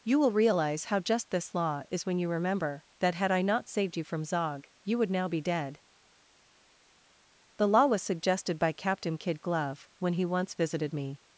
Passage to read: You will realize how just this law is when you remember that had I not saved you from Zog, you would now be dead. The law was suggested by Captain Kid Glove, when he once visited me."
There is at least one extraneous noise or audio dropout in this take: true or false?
false